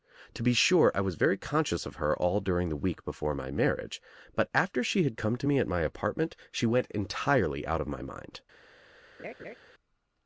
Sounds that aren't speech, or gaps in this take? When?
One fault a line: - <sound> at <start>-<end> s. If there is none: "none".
- laugh at 9.2-9.6 s